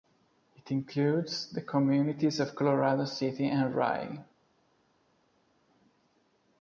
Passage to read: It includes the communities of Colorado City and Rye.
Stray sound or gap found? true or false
false